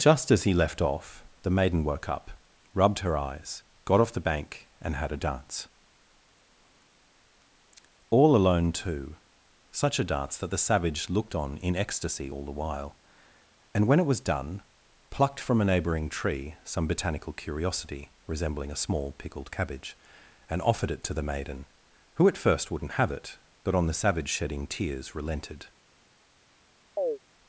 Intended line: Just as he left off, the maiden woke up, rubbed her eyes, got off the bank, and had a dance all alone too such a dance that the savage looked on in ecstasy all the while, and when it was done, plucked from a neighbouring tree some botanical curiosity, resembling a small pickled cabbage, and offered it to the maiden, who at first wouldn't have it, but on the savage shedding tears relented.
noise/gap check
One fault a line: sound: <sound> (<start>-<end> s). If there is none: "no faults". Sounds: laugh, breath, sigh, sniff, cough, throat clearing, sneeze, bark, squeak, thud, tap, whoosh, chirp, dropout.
sound: chirp (27.0-27.2 s)